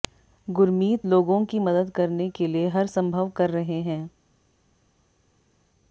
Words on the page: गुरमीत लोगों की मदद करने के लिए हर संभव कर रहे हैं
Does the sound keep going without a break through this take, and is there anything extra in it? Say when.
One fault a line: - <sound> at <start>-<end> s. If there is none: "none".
none